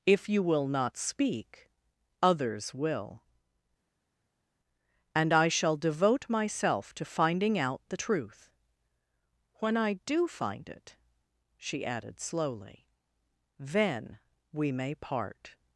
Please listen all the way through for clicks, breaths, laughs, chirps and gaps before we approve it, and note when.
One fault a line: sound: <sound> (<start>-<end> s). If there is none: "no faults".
no faults